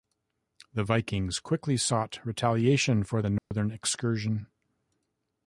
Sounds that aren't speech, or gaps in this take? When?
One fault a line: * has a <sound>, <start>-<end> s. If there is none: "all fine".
* has a dropout, 3.4-3.5 s